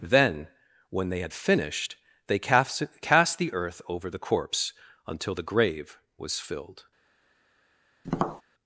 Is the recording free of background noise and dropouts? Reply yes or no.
no